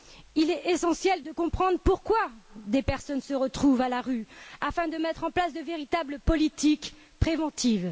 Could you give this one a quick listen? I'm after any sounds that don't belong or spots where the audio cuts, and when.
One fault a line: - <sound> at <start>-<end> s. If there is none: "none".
none